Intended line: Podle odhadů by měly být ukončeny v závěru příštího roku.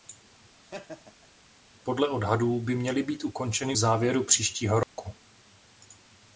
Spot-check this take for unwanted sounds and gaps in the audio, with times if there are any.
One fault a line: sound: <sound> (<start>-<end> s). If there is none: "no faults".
sound: laugh (0.6-1.3 s)
sound: dropout (4.8-5.0 s)